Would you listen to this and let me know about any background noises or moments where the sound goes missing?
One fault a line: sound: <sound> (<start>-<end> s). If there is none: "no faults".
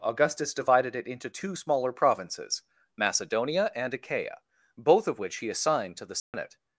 sound: dropout (6.2-6.3 s)